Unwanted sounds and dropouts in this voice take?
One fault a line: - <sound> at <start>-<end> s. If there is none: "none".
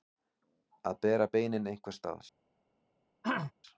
- throat clearing at 3.2-3.5 s